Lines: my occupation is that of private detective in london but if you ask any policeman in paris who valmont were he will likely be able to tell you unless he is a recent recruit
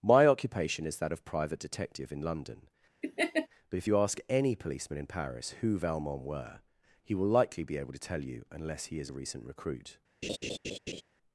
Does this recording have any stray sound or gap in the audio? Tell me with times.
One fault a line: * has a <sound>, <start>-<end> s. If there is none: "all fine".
* has a laugh, 3.0-3.5 s
* has a laugh, 10.2-11.0 s